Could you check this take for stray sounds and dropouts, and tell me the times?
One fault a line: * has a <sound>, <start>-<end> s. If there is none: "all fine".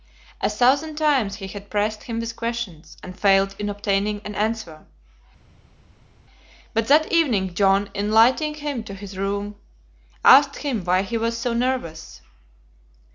all fine